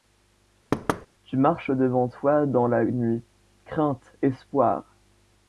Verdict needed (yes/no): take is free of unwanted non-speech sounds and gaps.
no